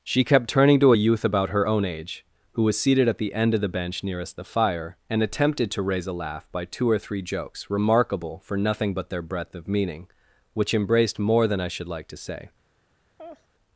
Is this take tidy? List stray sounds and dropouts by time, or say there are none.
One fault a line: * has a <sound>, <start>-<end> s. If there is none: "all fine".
* has a laugh, 13.2-13.5 s